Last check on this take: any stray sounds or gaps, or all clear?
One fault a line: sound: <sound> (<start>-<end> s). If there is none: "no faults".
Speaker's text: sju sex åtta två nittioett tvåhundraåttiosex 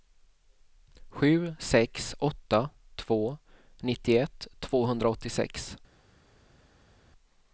no faults